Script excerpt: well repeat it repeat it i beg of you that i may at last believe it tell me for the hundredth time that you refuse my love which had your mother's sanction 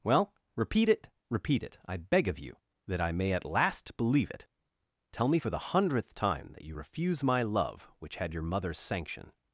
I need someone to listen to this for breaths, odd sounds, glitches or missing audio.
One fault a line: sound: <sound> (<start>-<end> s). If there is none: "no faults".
no faults